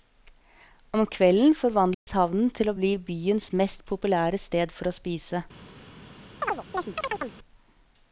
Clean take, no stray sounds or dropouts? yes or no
no